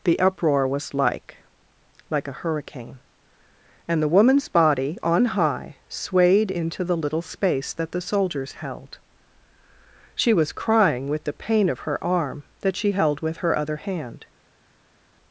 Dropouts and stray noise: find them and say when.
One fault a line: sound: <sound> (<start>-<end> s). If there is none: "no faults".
no faults